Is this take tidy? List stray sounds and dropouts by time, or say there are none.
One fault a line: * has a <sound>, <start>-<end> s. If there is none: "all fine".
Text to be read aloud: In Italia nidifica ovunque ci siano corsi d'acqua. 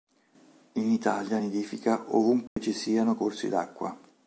* has a dropout, 2.5-2.6 s